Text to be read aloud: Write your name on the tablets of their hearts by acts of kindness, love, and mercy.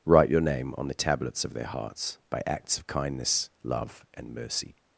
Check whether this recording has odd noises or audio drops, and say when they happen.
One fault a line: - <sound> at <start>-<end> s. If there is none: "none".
none